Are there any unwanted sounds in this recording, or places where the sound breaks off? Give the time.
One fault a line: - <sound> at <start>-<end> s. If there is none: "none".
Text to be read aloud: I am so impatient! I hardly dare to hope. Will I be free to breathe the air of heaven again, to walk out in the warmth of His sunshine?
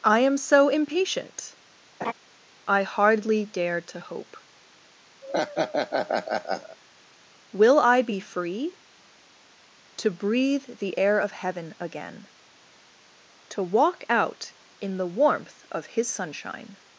- laugh at 2.0-2.1 s
- laugh at 5.2-6.8 s